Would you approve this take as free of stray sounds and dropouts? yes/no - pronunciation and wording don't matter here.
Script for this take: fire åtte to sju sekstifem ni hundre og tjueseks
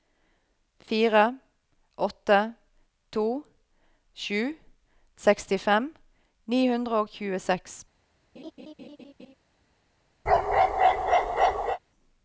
no